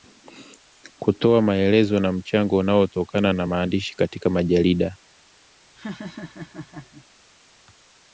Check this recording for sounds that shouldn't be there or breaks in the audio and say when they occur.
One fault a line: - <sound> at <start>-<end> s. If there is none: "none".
- laugh at 5.8-7.1 s